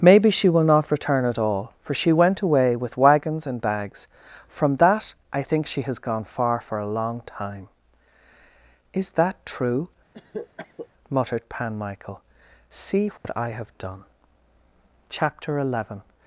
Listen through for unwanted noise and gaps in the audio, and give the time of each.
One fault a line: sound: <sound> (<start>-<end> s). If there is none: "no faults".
sound: cough (10.1-10.9 s)
sound: dropout (13.2-13.2 s)